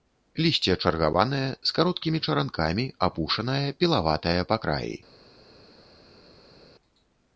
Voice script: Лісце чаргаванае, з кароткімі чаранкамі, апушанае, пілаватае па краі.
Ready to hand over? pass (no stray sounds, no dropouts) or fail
pass